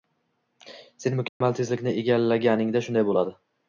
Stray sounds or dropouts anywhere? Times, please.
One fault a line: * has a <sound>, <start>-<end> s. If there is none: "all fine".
* has a dropout, 1.3-1.4 s